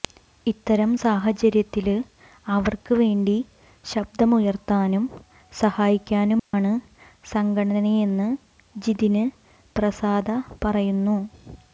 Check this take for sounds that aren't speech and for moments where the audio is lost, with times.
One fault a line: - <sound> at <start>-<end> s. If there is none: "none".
- dropout at 6.4-6.5 s